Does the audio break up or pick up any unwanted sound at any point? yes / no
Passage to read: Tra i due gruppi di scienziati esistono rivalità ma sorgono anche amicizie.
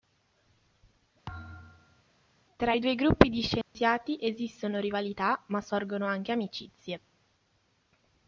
yes